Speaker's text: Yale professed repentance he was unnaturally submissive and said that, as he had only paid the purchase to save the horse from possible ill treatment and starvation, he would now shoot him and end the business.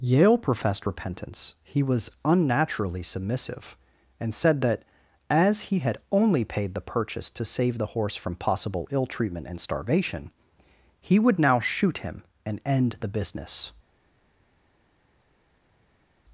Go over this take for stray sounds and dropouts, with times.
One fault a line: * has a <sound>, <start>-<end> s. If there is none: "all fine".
all fine